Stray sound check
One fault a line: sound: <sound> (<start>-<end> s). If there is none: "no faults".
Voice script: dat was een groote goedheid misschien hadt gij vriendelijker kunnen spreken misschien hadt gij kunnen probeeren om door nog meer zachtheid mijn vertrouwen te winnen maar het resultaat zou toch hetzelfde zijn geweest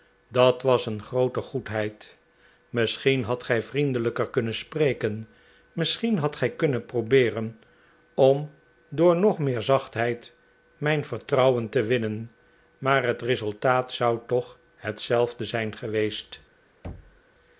sound: thud (16.8-17.2 s)